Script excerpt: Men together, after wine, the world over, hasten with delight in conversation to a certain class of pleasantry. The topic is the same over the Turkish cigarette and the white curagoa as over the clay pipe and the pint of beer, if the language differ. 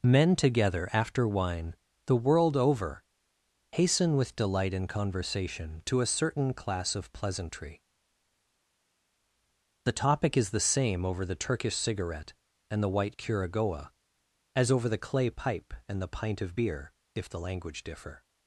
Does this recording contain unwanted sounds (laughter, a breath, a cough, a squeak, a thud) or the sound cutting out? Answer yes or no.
no